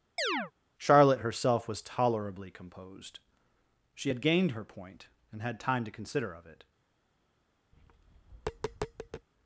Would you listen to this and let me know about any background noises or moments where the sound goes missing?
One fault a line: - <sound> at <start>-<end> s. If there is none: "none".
- chirp at 0.2-0.5 s
- tap at 7.7-9.3 s